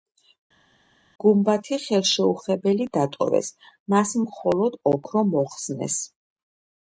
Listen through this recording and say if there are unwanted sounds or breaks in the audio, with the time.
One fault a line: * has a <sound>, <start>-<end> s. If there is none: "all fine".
all fine